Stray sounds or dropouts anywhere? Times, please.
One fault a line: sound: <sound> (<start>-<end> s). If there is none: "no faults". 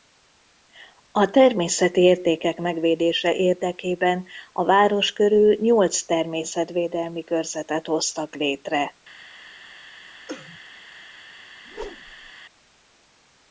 sound: cough (10.3-10.6 s)
sound: whoosh (11.6-12.3 s)